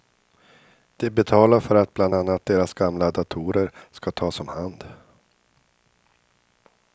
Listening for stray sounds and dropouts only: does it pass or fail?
pass